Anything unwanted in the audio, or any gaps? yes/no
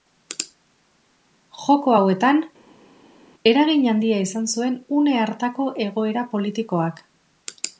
no